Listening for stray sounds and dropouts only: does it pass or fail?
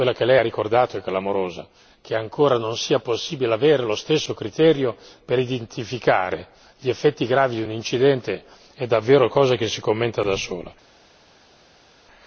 pass